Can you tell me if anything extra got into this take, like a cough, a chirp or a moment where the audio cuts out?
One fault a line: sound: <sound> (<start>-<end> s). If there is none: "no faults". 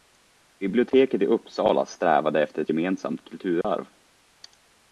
sound: dropout (3.6-3.6 s)